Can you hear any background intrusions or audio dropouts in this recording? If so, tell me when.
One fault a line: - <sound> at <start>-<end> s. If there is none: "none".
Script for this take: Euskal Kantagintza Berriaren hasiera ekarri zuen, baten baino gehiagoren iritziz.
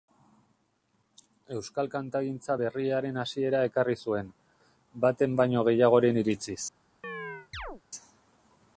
- chirp at 7.0-7.8 s